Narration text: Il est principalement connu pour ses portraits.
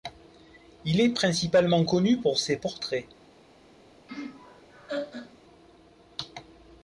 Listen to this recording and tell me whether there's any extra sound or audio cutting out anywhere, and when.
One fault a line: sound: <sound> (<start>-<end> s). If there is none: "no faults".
sound: laugh (4.1-5.4 s)